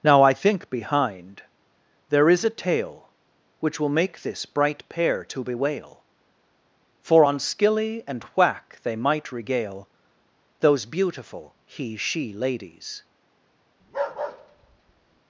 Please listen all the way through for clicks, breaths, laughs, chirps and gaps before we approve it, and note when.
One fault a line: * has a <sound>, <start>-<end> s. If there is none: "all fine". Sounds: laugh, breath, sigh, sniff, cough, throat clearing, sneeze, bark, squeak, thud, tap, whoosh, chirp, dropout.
* has a bark, 13.8-15.2 s